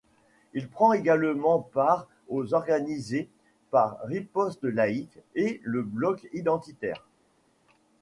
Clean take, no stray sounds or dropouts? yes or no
yes